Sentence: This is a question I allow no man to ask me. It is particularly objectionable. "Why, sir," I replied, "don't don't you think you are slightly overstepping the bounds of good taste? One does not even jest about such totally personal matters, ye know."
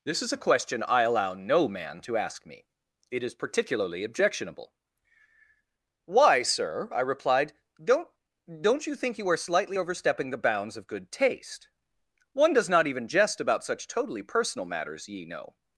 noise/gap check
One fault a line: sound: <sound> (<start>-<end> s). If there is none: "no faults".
no faults